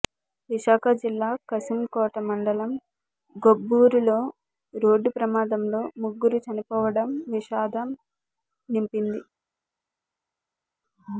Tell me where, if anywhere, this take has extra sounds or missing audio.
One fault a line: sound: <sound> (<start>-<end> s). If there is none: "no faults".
no faults